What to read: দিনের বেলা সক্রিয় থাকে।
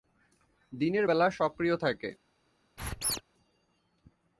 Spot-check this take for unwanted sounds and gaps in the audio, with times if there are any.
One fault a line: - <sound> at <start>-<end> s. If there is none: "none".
- squeak at 2.8-3.2 s